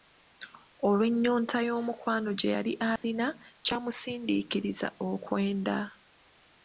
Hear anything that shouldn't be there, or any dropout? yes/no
yes